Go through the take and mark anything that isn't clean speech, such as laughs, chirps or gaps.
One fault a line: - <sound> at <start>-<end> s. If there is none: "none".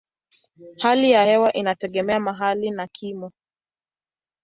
none